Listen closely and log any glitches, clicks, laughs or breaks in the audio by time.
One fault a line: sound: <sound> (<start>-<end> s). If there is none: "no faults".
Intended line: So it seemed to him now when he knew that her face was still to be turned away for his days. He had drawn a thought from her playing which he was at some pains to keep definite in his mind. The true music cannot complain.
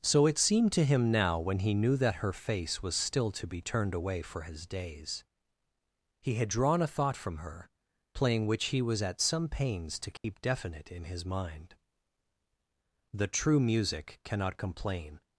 sound: dropout (10.2-10.2 s)